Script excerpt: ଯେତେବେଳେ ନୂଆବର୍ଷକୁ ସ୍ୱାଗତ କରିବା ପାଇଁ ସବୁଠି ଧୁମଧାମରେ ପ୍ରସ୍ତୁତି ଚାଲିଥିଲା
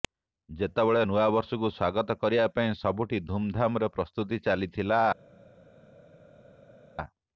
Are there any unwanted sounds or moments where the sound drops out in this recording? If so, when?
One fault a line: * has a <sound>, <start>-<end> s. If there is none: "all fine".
all fine